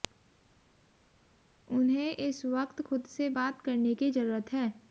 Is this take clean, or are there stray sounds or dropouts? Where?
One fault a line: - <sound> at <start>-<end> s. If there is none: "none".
none